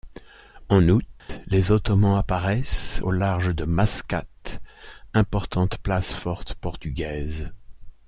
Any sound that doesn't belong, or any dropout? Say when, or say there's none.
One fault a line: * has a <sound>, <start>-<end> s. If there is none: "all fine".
* has a dropout, 1.2-1.3 s